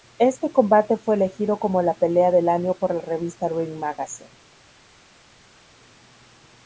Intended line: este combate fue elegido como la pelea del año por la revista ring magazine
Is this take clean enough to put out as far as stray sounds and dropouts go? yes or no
yes